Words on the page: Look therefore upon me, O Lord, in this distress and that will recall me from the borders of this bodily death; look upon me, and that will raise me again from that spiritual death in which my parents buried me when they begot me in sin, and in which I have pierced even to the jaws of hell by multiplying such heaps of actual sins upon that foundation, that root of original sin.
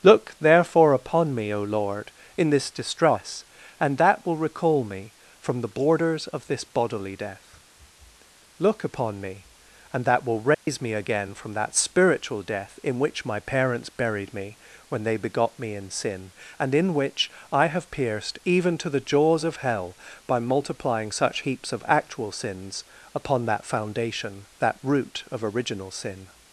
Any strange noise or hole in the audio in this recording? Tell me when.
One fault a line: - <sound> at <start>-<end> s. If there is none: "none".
- dropout at 10.5-10.7 s